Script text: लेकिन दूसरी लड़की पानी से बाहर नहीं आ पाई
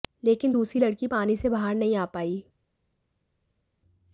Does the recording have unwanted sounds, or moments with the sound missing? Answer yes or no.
no